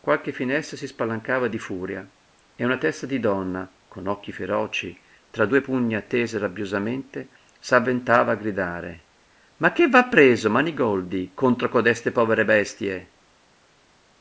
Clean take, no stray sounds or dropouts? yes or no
yes